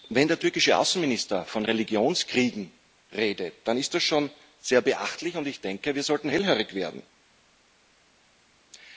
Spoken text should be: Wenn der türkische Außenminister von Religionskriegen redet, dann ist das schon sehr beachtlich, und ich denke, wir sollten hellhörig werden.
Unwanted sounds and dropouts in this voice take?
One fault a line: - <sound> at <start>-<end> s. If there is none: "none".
none